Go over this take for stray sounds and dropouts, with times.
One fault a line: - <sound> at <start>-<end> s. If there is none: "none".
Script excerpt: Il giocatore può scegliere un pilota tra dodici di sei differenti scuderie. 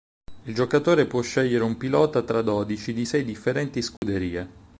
- dropout at 4.0-4.0 s